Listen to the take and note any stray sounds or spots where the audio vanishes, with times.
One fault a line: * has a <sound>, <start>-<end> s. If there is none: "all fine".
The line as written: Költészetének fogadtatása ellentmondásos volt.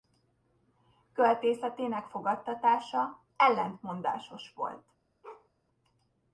* has a bark, 5.2-5.5 s